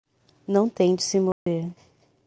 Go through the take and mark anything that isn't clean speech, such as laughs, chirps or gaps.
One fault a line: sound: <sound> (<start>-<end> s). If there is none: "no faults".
sound: dropout (1.3-1.5 s)